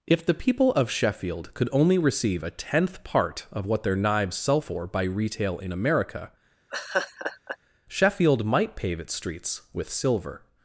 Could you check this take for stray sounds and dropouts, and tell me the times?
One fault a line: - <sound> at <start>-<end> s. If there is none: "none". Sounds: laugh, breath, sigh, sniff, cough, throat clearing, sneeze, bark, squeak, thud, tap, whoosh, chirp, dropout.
- laugh at 6.7-7.6 s